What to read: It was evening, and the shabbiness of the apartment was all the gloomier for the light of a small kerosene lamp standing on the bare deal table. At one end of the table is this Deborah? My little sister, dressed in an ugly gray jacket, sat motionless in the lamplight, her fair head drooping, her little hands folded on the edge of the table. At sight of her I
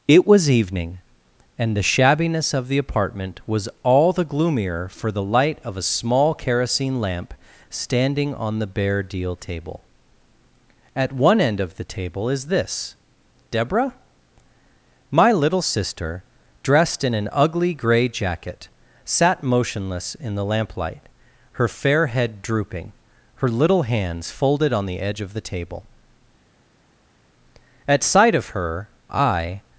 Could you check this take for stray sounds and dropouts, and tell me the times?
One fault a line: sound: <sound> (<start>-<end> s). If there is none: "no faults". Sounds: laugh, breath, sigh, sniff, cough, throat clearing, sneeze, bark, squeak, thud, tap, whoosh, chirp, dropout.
no faults